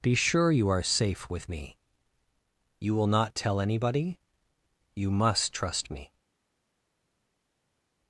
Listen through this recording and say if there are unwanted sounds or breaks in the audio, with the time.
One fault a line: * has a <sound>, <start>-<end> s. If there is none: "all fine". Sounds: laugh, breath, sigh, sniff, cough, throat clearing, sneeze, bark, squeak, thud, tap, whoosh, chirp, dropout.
all fine